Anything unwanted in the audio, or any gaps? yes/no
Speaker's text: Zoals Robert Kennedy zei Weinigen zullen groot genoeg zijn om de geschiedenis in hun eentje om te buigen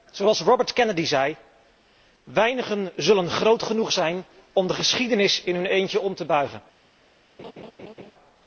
yes